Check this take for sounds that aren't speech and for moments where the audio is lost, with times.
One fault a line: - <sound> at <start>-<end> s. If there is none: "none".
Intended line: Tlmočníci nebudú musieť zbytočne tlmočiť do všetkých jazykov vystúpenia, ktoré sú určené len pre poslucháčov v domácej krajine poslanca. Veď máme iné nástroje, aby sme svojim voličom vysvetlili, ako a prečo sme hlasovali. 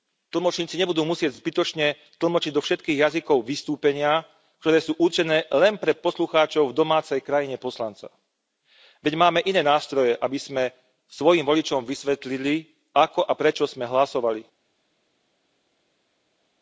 none